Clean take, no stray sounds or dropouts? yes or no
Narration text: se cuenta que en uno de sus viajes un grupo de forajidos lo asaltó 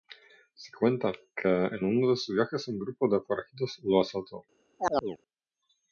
no